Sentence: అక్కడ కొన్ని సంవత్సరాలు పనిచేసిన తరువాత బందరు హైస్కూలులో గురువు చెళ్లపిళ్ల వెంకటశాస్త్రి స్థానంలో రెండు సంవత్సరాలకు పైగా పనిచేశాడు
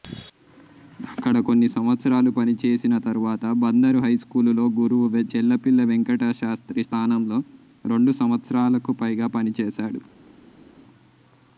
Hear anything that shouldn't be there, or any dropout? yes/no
no